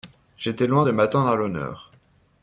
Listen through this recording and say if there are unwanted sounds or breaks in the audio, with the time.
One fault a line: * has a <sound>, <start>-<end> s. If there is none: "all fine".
all fine